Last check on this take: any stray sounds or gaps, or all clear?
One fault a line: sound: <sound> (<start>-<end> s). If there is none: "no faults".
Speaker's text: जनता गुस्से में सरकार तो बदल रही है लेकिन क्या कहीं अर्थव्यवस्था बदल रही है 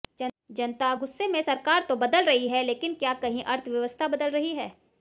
no faults